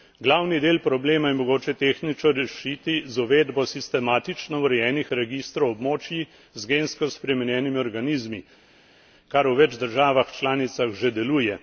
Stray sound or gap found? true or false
false